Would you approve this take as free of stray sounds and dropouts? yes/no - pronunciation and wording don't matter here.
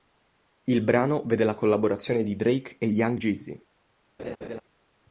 no